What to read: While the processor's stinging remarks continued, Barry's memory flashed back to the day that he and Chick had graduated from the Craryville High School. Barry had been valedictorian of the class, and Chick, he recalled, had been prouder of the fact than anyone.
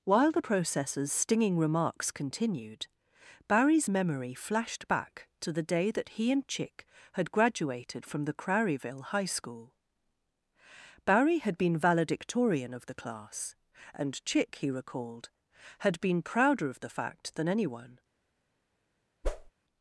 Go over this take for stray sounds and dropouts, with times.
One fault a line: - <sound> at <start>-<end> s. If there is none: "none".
- whoosh at 19.2-19.5 s